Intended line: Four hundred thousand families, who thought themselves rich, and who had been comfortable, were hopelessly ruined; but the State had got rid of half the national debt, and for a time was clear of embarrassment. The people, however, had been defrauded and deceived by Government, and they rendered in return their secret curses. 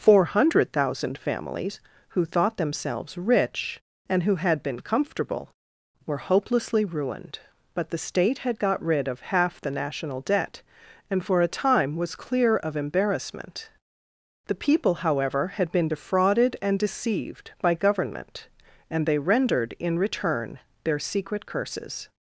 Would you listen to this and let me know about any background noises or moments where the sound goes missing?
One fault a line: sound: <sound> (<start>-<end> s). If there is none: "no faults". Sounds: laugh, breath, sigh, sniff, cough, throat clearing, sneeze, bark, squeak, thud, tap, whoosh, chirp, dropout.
no faults